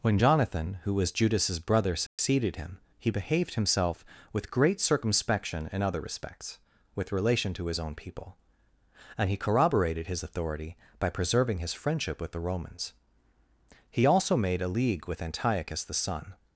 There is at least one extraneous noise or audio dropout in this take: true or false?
true